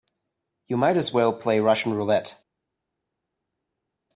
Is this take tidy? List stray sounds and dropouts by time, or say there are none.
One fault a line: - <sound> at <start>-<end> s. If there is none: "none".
none